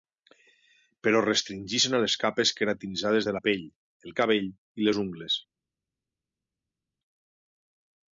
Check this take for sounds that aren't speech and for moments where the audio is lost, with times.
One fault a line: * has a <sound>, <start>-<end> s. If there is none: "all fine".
all fine